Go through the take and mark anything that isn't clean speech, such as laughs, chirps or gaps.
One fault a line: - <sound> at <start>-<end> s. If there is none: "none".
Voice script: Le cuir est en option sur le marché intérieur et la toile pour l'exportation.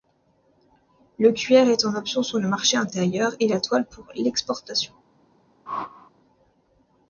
- whoosh at 5.7-6.1 s